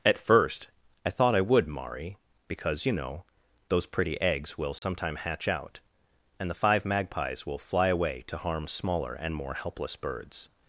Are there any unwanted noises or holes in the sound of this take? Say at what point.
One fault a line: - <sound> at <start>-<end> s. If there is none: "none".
- dropout at 4.8-4.8 s